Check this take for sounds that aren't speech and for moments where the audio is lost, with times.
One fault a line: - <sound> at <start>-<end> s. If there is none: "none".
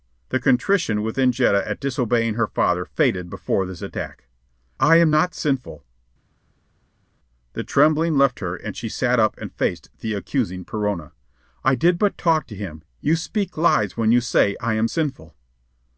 none